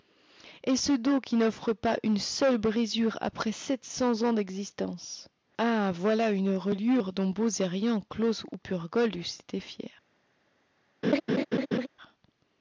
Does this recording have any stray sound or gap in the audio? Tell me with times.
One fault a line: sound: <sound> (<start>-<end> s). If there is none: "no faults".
sound: laugh (11.0-11.9 s)